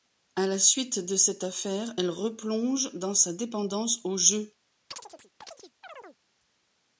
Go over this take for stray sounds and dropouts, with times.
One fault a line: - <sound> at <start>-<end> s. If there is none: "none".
- chirp at 4.9-6.2 s